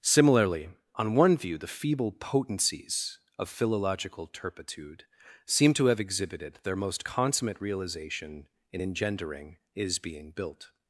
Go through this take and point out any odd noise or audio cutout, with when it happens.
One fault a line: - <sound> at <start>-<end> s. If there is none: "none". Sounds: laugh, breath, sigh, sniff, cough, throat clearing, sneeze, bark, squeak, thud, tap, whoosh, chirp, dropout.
none